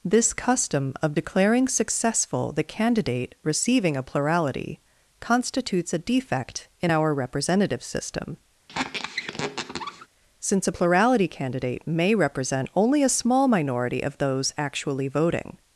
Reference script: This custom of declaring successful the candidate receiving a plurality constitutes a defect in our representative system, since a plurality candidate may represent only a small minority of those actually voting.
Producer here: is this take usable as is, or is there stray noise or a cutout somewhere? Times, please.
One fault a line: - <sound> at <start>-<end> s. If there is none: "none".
- squeak at 8.7-10.1 s